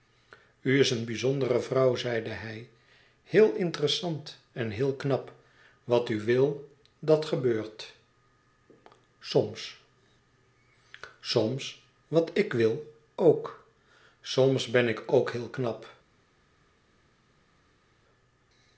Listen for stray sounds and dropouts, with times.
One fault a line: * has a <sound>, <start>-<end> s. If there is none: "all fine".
all fine